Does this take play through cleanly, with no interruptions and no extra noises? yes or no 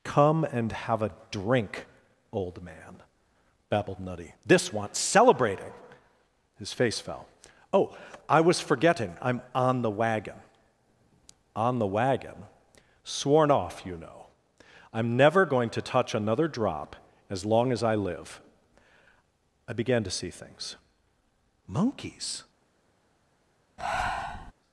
no